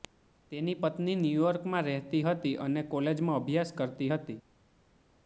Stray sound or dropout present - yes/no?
no